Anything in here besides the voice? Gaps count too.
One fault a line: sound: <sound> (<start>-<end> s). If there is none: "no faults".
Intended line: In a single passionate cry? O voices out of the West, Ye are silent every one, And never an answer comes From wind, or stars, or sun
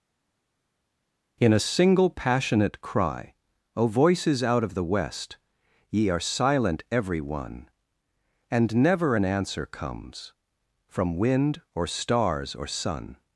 no faults